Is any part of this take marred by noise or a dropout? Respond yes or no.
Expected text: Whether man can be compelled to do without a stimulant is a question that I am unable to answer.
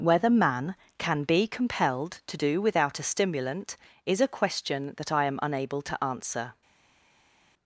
no